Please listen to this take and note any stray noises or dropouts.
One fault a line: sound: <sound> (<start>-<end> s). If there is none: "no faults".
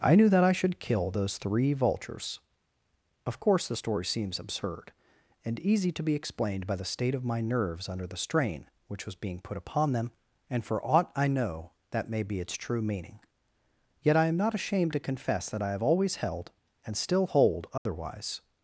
sound: dropout (17.8-17.9 s)